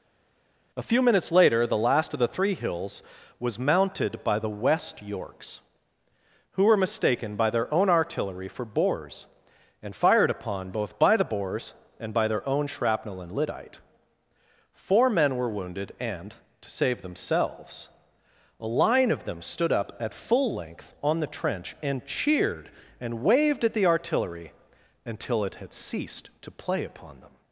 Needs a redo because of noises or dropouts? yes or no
no